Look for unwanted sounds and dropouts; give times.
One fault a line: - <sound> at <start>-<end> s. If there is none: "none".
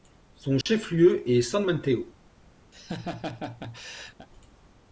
- dropout at 0.6-0.7 s
- laugh at 2.7-4.3 s